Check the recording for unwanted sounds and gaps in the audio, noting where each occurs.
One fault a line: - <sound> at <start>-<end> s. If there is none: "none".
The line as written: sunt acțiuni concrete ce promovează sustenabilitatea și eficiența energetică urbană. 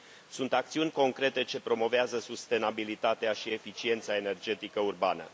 none